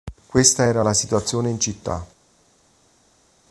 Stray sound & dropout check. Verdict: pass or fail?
pass